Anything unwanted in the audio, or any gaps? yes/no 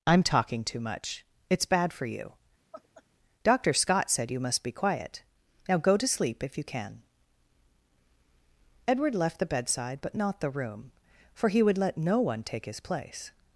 yes